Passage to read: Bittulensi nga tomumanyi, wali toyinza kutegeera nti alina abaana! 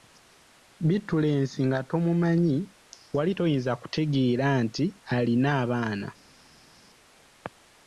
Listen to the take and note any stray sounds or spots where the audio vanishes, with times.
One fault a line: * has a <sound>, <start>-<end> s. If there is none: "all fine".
all fine